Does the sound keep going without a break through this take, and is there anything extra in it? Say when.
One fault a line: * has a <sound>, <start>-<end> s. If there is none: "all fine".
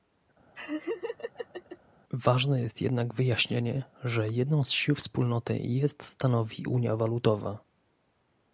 * has a laugh, 0.5-1.8 s